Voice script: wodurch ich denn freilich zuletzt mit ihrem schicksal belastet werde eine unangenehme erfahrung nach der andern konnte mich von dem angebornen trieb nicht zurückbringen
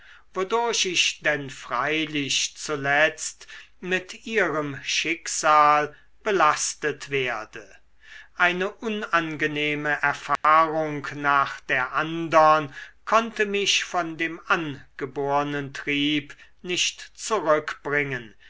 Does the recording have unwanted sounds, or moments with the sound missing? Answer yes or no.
yes